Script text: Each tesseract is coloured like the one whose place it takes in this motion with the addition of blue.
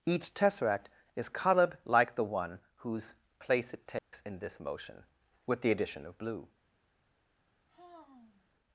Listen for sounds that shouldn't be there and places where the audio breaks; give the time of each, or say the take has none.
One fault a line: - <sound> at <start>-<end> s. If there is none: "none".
- dropout at 4.0-4.1 s
- sigh at 7.7-8.5 s